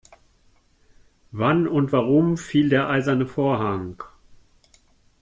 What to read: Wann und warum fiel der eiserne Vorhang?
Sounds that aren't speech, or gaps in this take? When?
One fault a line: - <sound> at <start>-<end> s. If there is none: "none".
none